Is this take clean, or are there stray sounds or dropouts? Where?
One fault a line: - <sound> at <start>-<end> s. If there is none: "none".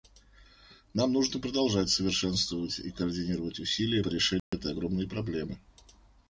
- dropout at 4.4-4.5 s